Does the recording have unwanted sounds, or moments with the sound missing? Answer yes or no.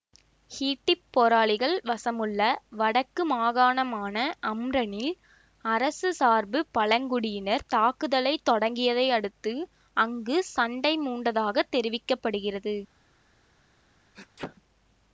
yes